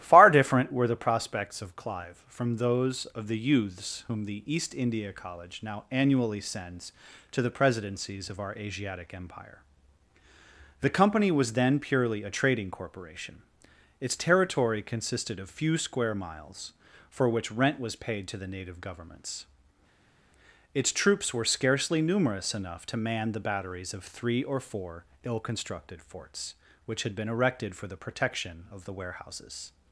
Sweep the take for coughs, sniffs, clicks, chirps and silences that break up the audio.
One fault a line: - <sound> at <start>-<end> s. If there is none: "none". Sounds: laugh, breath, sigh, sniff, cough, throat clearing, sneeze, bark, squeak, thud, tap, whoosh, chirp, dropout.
none